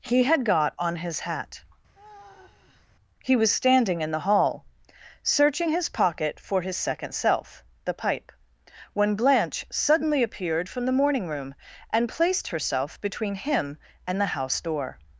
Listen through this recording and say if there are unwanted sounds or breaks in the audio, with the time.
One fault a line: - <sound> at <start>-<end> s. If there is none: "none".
- sigh at 1.9-2.9 s